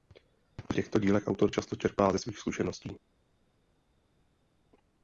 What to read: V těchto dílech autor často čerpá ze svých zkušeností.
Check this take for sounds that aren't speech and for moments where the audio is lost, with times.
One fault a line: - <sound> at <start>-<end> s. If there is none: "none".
none